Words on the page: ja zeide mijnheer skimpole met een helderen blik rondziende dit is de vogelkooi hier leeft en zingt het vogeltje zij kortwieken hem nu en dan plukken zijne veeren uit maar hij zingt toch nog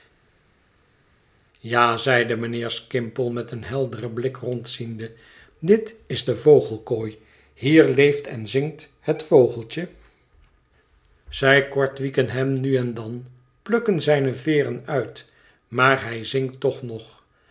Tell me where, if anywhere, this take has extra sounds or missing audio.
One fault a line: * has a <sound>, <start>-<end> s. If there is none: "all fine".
all fine